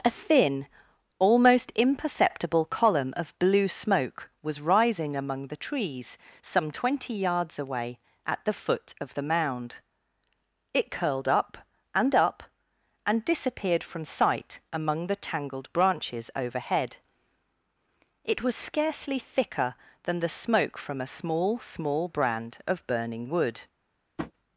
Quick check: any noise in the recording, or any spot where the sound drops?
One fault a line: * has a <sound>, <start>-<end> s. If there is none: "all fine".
* has a tap, 24.2-24.3 s